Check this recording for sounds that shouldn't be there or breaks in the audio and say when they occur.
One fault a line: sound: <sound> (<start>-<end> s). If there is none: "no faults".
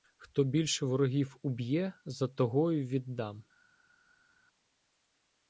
no faults